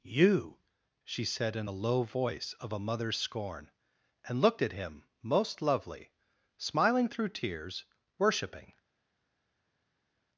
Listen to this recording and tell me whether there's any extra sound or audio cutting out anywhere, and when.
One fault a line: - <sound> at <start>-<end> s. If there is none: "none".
none